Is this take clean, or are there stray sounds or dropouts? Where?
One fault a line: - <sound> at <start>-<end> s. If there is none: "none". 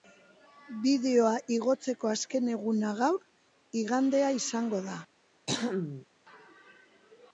- throat clearing at 5.5-6.1 s